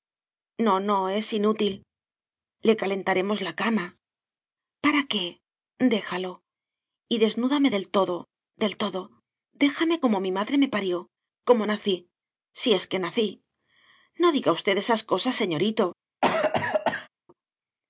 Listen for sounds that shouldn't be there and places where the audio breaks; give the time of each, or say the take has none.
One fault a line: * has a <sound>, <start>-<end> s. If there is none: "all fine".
* has a cough, 16.2-17.1 s